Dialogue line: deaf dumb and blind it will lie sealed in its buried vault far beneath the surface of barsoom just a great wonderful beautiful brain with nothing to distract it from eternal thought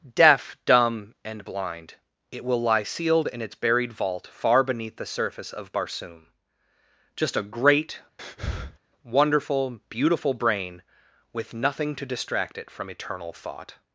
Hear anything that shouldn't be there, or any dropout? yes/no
yes